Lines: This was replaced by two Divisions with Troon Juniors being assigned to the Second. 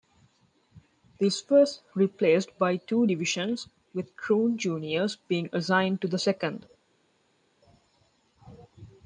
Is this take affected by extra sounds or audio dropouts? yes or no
no